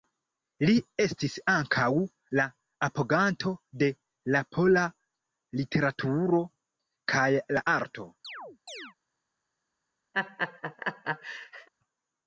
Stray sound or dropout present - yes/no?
yes